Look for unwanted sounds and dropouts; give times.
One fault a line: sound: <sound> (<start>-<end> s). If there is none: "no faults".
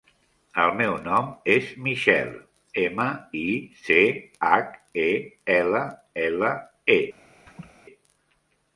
sound: laugh (7.5-7.7 s)